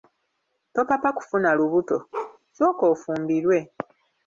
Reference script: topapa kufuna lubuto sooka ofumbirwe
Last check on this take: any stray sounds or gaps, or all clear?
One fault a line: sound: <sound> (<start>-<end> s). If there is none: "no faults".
sound: bark (2.1-2.4 s)